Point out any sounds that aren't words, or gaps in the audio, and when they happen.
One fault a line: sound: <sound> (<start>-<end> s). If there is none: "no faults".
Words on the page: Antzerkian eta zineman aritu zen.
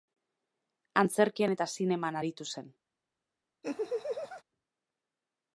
sound: laugh (3.6-4.4 s)